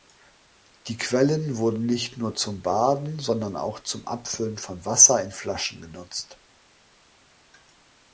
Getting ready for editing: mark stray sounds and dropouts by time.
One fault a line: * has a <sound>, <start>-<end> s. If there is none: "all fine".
all fine